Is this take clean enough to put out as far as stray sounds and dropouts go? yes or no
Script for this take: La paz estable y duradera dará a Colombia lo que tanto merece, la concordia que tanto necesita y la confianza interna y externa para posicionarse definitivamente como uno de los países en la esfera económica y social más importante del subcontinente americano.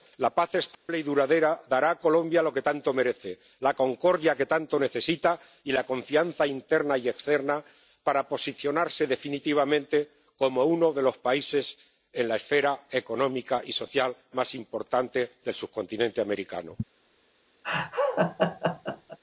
no